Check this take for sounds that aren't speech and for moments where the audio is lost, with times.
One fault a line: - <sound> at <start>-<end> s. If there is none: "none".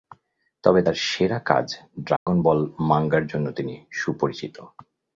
- dropout at 2.2-2.3 s